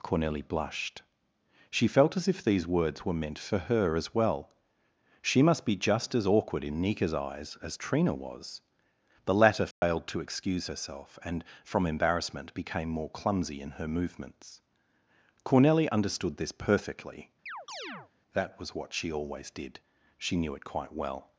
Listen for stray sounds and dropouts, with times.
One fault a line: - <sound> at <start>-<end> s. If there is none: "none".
- dropout at 9.7-9.8 s
- chirp at 17.5-18.1 s